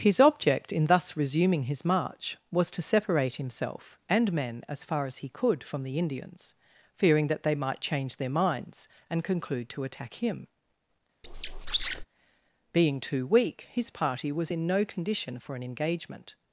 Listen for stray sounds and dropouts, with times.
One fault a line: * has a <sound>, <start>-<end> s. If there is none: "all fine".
* has a squeak, 11.2-12.0 s